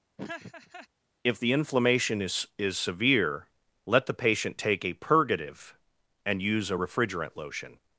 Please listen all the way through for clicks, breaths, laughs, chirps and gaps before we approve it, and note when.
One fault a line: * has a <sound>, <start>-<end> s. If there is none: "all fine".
* has a laugh, 0.2-0.9 s